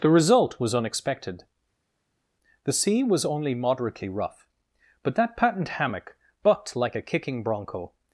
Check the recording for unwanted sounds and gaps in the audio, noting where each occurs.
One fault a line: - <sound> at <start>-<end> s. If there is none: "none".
none